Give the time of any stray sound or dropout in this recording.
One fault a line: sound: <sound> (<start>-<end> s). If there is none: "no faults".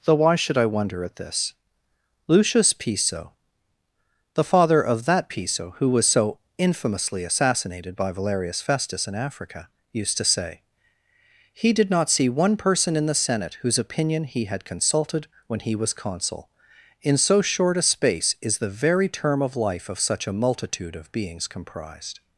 no faults